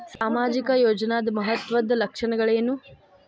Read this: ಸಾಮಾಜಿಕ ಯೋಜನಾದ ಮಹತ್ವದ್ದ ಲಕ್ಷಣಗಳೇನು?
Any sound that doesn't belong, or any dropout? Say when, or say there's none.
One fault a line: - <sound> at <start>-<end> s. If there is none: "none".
- dropout at 0.2-0.2 s